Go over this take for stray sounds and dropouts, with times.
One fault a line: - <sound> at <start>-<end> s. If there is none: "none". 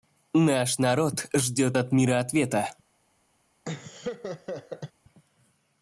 - laugh at 3.6-4.9 s